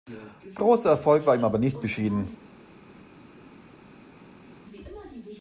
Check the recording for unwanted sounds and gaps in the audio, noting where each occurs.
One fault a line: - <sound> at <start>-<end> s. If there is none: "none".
none